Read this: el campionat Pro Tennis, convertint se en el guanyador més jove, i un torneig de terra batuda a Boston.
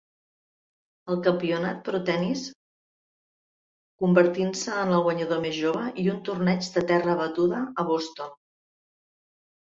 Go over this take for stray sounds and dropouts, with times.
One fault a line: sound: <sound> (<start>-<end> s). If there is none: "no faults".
no faults